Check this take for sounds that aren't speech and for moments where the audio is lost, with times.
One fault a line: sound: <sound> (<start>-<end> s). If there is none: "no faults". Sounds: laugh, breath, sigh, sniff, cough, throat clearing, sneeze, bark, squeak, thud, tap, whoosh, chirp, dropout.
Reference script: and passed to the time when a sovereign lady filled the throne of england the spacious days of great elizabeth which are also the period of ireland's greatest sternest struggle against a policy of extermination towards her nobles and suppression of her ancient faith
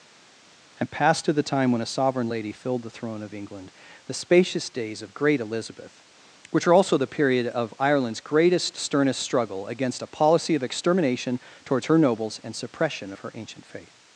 no faults